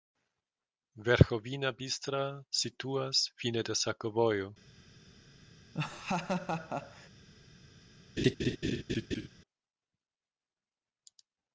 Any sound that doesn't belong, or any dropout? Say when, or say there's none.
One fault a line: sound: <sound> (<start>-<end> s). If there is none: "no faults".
sound: laugh (5.7-7.1 s)
sound: laugh (8.2-9.3 s)